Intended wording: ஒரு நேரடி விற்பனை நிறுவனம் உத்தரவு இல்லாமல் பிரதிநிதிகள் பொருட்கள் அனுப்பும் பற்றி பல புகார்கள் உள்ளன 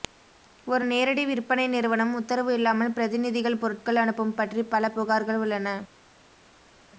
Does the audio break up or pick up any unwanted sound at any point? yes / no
no